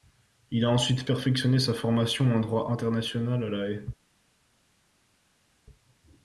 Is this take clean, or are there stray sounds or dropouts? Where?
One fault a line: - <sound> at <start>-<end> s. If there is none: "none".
none